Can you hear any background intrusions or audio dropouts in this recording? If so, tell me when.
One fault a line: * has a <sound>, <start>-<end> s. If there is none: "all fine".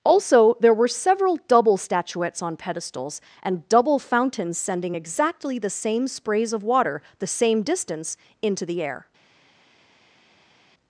all fine